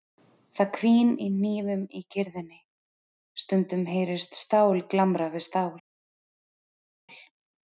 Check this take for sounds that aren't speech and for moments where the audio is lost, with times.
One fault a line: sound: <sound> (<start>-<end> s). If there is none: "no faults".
no faults